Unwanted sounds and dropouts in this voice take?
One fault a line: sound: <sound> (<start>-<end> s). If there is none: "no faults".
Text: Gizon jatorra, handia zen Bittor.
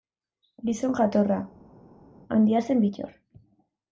no faults